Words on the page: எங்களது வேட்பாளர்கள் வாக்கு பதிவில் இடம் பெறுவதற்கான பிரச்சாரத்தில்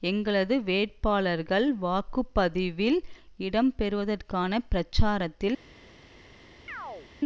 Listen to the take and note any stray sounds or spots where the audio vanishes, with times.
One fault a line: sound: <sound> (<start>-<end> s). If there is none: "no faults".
sound: chirp (6.7-7.1 s)